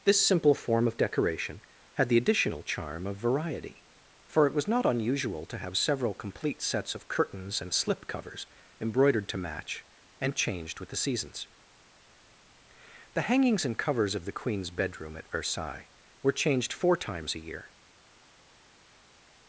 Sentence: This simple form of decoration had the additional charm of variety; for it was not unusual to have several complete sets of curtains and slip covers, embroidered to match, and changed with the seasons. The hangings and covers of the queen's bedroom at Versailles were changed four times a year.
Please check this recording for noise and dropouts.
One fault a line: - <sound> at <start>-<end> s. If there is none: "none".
none